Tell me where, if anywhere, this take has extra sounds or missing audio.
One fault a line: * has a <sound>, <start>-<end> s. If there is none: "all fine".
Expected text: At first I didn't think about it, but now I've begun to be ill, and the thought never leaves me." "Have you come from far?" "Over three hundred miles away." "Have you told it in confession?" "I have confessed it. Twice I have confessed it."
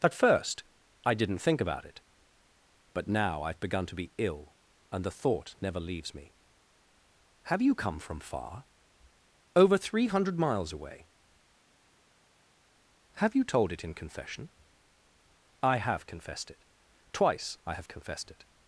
all fine